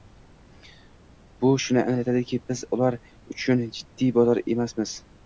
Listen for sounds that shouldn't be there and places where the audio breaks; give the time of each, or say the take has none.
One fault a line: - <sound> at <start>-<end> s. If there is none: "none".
none